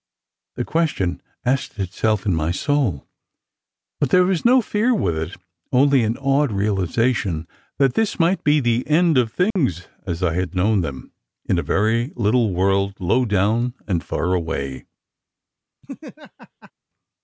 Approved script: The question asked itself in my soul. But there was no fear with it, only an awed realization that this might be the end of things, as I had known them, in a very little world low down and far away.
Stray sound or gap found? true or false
true